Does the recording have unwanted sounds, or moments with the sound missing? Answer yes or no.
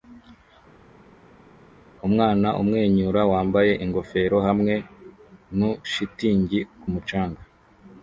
no